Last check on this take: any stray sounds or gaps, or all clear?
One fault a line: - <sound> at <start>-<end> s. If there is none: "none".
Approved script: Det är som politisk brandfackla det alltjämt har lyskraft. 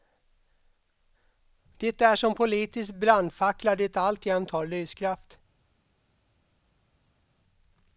none